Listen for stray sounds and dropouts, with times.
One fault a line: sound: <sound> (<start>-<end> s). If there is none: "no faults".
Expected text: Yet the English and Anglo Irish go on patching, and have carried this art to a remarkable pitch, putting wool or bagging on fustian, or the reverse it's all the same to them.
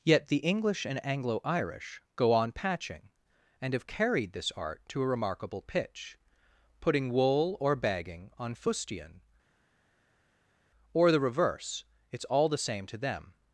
no faults